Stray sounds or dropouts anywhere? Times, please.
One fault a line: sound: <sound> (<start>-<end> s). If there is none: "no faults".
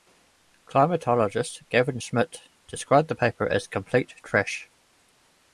no faults